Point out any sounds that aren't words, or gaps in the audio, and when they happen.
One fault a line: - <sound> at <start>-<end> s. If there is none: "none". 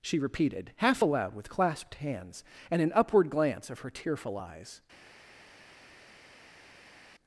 none